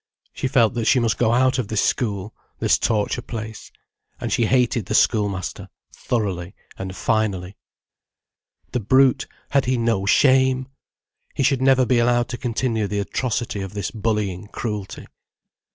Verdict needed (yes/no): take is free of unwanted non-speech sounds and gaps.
yes